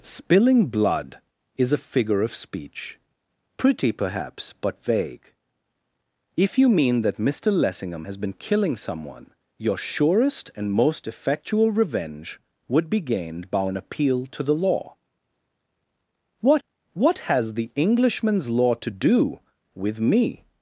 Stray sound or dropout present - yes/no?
no